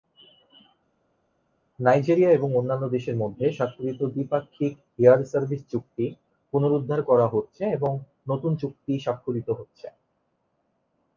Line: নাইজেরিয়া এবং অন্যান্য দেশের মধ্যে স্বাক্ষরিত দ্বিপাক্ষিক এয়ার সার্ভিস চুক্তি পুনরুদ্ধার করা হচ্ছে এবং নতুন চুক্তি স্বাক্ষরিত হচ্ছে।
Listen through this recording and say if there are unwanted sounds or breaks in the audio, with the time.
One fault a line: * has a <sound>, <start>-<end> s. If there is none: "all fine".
all fine